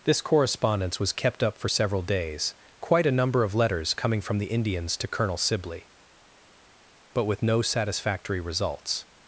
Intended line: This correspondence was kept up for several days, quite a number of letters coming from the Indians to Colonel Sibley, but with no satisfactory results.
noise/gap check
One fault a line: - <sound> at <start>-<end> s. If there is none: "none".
none